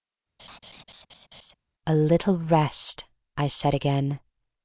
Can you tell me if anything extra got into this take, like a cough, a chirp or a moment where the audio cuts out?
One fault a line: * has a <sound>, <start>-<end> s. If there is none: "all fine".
* has a laugh, 0.4-1.5 s